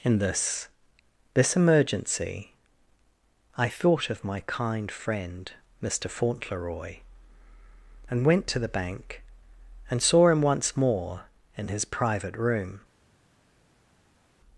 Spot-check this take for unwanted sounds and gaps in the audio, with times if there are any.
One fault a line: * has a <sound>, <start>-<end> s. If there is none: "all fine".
all fine